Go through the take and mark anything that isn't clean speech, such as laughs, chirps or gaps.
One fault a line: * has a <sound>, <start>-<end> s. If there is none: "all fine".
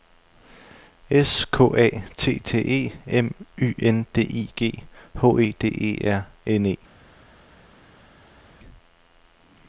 all fine